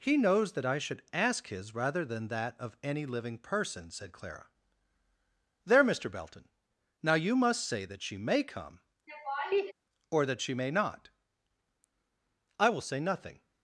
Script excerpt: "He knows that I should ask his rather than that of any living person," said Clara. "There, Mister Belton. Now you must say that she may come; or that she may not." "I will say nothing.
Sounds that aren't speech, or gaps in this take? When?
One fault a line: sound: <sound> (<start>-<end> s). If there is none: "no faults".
sound: laugh (9.1-9.7 s)